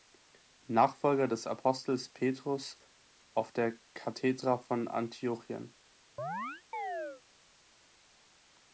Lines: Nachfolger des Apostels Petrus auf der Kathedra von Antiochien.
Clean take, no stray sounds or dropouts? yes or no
no